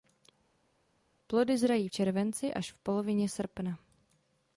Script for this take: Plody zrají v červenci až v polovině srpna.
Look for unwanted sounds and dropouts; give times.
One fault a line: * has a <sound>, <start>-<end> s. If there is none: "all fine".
all fine